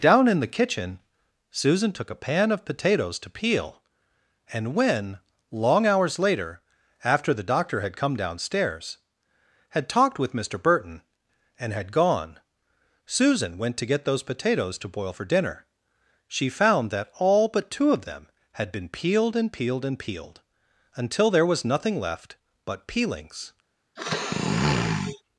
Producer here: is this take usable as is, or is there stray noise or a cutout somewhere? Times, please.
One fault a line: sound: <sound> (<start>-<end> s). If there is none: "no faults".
sound: sniff (24.0-25.2 s)